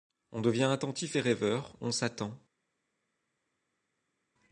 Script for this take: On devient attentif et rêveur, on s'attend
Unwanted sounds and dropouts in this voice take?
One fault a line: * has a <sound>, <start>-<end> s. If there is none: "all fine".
all fine